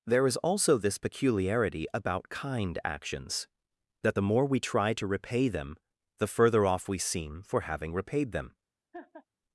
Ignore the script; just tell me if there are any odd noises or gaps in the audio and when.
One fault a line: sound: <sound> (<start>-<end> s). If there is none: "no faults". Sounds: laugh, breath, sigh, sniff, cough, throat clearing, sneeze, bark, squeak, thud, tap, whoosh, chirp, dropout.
sound: laugh (8.9-9.3 s)